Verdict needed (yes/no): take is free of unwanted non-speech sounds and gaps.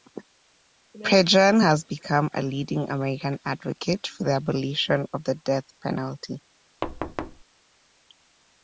no